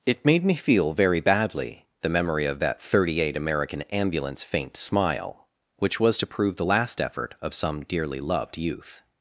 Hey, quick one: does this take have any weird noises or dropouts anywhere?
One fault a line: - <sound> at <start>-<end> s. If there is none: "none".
none